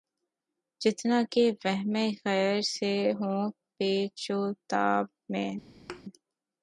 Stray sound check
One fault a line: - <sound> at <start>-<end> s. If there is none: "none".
- thud at 5.9-6.0 s